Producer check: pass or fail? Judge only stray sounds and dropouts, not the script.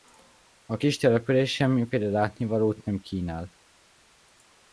pass